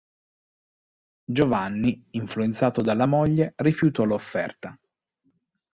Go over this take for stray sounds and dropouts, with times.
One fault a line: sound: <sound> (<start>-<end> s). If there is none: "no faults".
no faults